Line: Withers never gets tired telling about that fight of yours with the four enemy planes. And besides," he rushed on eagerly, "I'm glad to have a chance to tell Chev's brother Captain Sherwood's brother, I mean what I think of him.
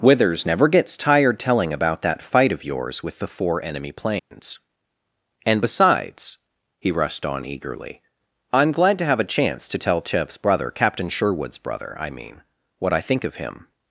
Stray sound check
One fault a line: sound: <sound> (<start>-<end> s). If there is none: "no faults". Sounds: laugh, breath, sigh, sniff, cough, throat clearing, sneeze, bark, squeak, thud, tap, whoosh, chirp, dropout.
sound: dropout (4.2-4.3 s)